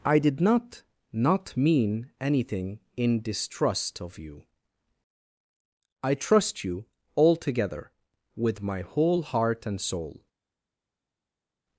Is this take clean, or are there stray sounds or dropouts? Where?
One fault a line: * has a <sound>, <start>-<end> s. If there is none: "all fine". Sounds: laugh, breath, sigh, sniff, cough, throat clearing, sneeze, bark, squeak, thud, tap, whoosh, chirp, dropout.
all fine